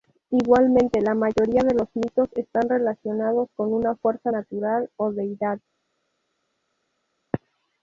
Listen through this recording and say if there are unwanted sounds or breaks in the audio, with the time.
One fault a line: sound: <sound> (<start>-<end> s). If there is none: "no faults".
no faults